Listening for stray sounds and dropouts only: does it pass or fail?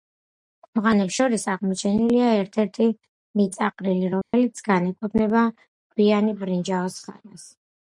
fail